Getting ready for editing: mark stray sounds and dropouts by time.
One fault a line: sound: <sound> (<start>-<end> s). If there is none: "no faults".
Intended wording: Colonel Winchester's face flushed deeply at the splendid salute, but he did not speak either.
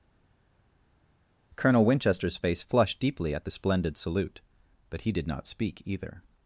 no faults